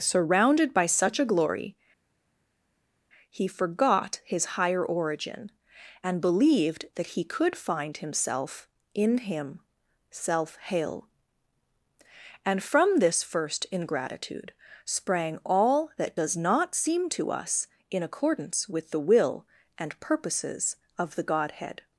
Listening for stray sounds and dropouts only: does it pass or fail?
pass